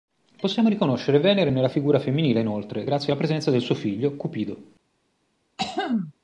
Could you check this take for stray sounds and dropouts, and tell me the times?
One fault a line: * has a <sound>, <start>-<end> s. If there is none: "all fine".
* has a throat clearing, 5.6-6.1 s